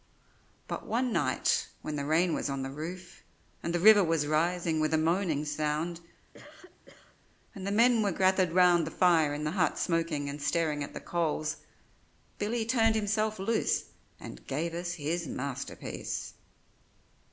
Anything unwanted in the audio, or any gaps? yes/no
yes